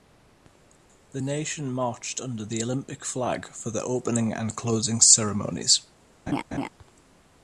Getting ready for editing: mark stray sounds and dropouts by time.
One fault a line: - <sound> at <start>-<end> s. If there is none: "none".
- laugh at 6.3-6.7 s